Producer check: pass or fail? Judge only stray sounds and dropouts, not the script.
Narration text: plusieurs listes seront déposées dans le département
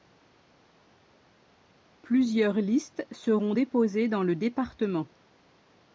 pass